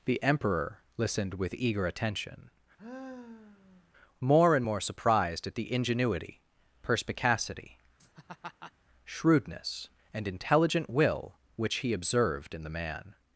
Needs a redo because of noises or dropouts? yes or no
yes